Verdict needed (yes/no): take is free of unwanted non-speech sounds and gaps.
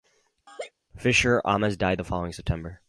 no